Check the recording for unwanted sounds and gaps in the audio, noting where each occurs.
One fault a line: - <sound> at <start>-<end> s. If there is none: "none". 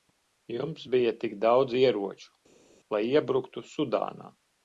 none